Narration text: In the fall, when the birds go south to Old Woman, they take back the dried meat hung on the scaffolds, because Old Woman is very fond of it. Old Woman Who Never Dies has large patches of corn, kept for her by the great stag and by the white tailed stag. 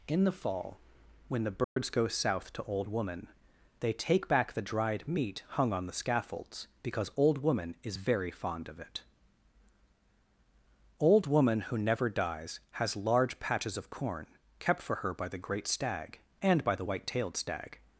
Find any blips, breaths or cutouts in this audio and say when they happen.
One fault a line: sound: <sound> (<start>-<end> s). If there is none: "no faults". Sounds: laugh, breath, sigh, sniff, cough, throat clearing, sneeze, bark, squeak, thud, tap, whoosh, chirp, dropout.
sound: dropout (1.6-1.8 s)